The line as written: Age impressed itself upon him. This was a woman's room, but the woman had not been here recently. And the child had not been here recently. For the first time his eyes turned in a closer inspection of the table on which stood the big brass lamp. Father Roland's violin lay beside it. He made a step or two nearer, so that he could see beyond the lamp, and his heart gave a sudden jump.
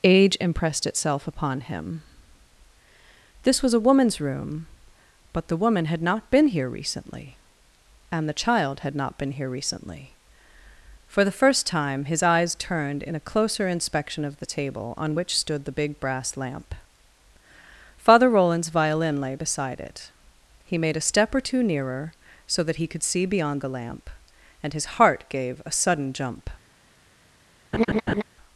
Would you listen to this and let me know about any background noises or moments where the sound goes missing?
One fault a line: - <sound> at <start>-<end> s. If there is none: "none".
- laugh at 27.7-28.2 s